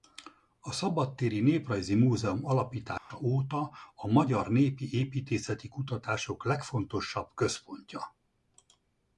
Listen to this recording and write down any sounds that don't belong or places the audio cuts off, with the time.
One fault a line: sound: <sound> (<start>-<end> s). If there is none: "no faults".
sound: dropout (3.0-3.1 s)